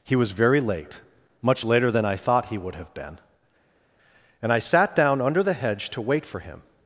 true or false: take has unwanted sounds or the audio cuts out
false